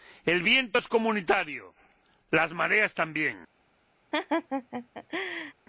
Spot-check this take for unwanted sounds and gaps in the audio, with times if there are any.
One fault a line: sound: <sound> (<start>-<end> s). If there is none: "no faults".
sound: laugh (4.1-5.5 s)